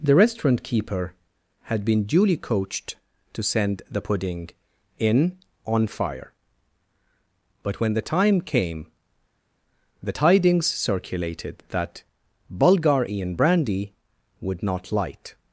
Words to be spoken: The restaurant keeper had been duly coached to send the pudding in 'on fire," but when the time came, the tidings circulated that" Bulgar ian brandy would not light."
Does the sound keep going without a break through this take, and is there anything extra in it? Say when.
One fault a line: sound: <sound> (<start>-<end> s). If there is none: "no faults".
no faults